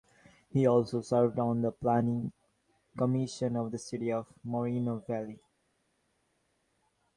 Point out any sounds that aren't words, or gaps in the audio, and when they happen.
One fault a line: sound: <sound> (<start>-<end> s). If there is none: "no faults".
no faults